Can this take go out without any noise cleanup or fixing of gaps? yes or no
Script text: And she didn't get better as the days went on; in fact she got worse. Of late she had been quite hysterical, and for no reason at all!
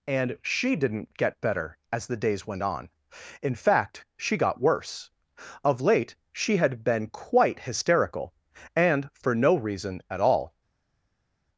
yes